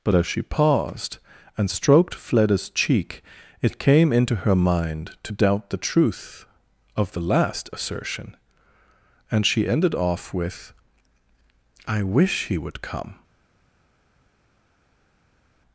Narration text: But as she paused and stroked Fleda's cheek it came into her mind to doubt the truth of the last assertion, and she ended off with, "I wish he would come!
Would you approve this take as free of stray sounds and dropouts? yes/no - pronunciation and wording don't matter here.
yes